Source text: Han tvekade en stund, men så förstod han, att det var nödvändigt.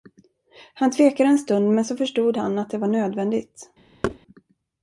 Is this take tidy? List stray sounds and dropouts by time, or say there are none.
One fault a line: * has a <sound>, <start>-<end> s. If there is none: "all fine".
* has a thud, 4.0-4.2 s